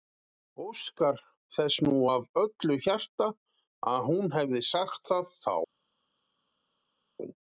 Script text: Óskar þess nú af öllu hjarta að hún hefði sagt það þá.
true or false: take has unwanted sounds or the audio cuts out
false